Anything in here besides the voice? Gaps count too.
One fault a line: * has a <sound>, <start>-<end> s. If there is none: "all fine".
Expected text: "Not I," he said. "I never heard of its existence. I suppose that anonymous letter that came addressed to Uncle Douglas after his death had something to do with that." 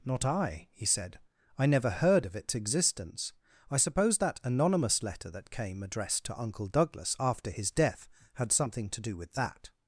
all fine